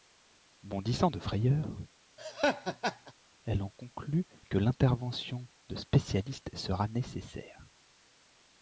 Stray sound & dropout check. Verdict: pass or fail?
fail